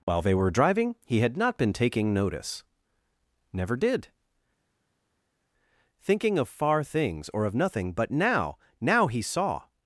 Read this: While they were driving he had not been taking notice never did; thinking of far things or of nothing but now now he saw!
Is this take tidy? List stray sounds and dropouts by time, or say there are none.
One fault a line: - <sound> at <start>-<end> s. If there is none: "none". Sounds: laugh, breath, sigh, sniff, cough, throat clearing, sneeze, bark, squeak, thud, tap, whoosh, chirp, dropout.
none